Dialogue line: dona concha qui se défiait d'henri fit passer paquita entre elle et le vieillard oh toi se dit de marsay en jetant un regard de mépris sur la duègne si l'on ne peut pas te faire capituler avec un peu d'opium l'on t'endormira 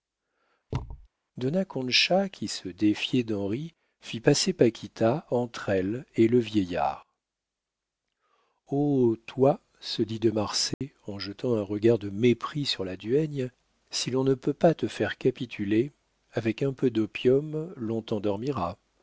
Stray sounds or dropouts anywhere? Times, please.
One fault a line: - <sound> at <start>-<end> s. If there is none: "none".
- thud at 0.7-1.1 s
- dropout at 10.7-10.8 s